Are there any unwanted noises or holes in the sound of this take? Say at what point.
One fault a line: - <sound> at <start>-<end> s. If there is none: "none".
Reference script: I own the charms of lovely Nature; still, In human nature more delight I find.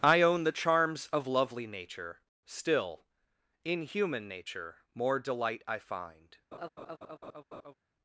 - laugh at 6.5-7.7 s